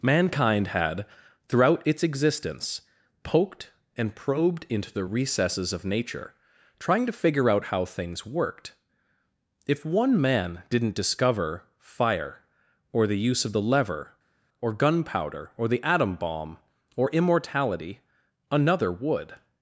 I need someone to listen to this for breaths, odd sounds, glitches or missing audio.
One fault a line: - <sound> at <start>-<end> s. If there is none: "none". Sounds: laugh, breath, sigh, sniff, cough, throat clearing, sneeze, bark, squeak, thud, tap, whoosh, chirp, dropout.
none